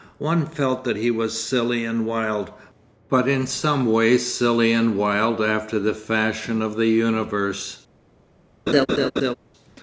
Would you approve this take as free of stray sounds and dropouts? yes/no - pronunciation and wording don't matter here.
no